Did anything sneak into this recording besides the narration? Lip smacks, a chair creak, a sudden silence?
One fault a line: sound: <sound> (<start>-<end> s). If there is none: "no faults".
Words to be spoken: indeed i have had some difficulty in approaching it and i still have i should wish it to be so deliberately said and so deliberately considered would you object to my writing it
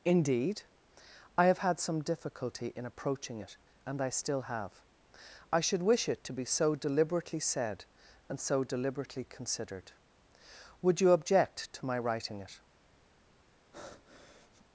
sound: breath (13.7-14.7 s)